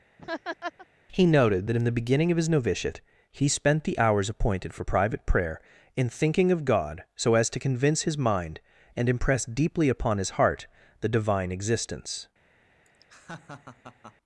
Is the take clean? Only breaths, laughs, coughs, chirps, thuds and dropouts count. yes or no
no